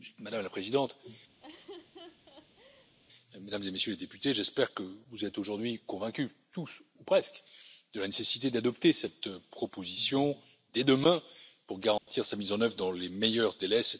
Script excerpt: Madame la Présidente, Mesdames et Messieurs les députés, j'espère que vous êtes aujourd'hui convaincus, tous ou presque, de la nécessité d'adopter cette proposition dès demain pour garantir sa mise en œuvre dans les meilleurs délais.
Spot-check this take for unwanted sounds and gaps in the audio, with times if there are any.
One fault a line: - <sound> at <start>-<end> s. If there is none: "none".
- laugh at 1.4-2.9 s
- dropout at 12.0-12.1 s